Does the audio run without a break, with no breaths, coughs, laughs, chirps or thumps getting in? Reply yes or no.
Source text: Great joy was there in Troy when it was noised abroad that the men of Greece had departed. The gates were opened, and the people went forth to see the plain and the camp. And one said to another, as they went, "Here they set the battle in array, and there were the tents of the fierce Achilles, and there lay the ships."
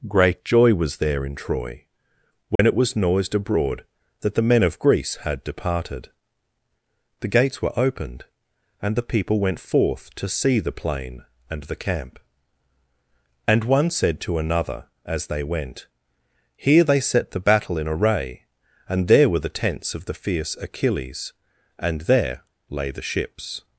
no